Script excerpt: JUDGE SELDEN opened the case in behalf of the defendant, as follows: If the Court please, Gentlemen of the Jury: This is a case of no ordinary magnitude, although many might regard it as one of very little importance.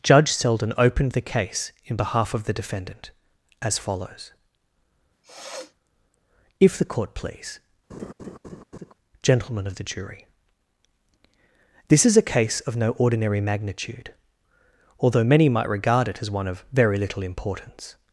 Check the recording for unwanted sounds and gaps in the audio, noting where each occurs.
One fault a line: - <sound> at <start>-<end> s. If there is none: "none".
- sniff at 5.2-5.7 s
- laugh at 7.9-8.9 s